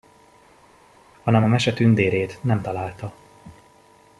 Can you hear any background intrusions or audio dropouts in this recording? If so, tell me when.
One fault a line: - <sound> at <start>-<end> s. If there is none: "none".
none